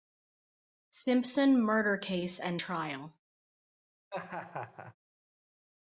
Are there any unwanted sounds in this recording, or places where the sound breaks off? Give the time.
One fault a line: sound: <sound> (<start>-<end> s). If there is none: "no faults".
sound: laugh (4.1-5.0 s)